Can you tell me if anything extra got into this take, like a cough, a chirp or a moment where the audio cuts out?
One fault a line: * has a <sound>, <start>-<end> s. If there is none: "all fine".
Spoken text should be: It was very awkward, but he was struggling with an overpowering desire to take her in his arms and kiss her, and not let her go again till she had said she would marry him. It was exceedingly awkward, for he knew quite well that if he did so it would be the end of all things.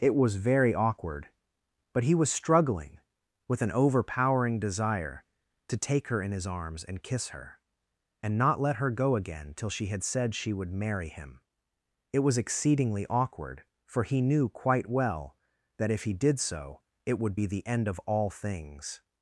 all fine